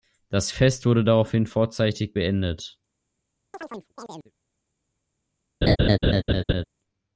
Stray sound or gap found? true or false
true